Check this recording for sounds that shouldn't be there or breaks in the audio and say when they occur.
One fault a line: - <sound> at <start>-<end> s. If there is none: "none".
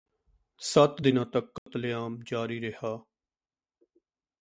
- dropout at 1.6-1.7 s